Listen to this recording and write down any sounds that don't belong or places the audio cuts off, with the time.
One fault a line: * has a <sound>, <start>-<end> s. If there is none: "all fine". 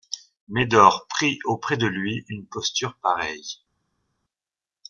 all fine